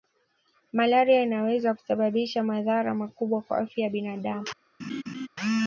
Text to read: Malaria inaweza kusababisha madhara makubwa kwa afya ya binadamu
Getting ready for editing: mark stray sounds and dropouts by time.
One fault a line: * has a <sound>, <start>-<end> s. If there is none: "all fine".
* has a laugh, 4.8-5.3 s